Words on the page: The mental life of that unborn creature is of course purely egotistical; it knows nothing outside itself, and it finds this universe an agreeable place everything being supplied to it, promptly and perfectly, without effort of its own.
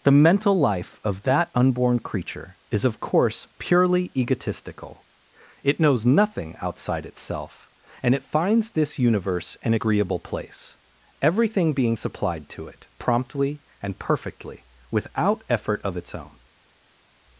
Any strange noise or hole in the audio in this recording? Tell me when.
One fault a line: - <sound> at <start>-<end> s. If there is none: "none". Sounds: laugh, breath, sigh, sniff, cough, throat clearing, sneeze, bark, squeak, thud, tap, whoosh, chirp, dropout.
none